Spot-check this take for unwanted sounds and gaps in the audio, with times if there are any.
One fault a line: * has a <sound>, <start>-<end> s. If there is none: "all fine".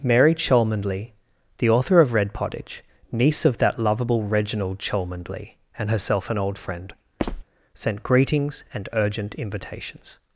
* has a squeak, 7.2-7.4 s